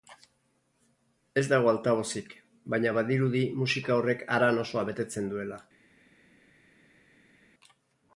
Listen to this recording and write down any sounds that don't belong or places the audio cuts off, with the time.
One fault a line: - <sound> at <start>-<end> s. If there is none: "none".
none